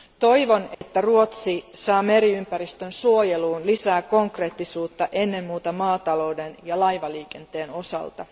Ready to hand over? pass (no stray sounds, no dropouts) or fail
fail